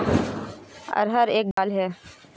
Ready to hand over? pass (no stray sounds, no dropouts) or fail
fail